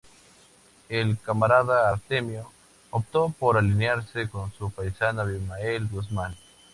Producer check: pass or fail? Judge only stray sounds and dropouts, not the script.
pass